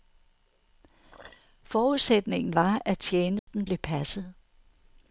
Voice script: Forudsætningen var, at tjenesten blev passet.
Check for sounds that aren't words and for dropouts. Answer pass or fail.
fail